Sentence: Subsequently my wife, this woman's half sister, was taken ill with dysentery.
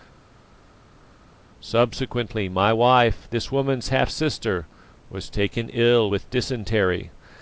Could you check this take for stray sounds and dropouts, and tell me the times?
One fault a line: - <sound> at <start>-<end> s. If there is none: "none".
none